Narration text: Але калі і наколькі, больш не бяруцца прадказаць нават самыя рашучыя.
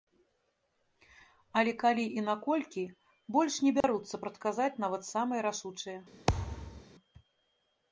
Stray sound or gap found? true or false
true